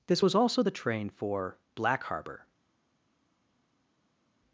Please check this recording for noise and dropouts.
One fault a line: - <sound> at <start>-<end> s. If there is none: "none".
none